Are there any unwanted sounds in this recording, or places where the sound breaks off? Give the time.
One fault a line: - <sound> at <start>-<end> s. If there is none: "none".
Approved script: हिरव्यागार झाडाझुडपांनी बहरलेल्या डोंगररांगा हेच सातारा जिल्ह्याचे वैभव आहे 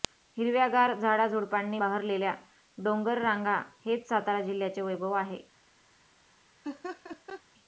- laugh at 6.6-7.4 s